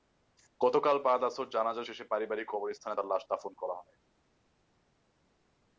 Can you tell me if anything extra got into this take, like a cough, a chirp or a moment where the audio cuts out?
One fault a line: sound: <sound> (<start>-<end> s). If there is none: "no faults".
no faults